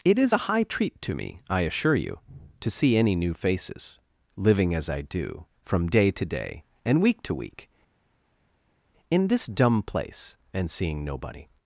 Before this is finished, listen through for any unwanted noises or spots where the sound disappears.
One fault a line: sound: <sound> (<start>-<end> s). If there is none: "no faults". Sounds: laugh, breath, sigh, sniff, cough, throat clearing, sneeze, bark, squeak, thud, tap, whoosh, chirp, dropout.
no faults